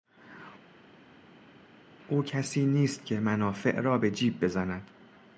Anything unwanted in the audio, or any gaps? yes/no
no